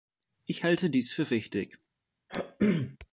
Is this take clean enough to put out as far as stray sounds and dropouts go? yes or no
no